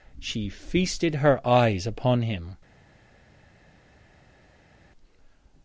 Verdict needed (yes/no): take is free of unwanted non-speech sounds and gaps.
yes